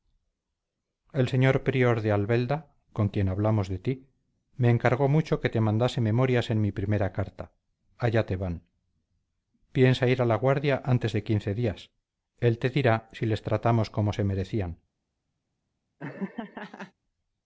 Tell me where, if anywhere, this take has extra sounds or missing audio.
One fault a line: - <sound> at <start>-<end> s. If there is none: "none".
- laugh at 16.0-16.9 s